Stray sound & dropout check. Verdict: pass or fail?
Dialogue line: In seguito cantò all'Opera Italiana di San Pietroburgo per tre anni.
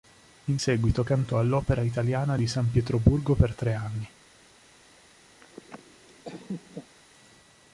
fail